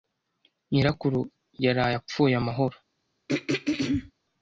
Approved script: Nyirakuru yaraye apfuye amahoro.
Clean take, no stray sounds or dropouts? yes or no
no